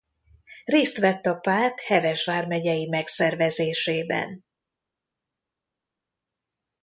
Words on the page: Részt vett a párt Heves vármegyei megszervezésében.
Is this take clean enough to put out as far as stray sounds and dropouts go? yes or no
yes